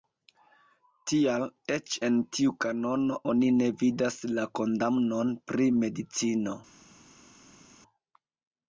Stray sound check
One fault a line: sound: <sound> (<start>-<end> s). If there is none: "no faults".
no faults